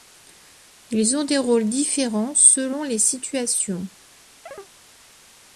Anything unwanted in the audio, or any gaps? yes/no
yes